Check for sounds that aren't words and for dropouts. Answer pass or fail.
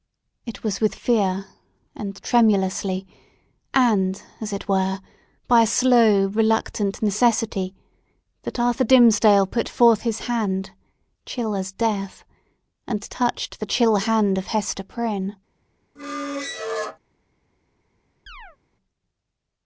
fail